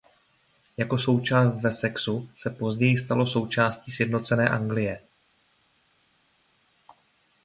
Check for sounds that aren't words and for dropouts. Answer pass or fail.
pass